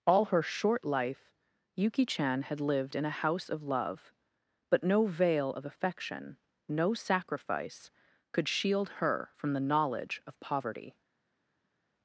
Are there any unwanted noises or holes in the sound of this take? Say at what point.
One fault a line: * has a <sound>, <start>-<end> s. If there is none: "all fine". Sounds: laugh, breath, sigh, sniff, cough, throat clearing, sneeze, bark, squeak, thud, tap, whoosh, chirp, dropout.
all fine